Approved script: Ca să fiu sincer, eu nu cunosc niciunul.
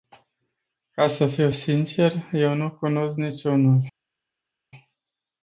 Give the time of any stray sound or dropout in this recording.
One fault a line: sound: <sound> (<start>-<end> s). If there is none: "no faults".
no faults